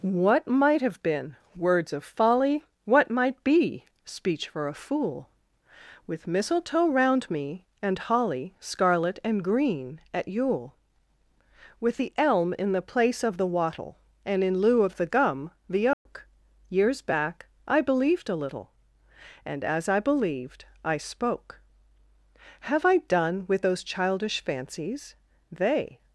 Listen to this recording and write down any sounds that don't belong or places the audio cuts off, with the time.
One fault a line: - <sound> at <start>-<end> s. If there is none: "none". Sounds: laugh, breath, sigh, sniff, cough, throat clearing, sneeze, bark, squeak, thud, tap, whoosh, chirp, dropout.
- dropout at 15.9-16.1 s